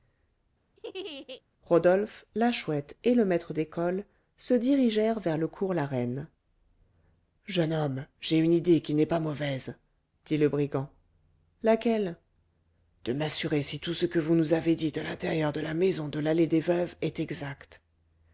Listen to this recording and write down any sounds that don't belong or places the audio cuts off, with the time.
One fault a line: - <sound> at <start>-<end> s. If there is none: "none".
- laugh at 0.8-1.4 s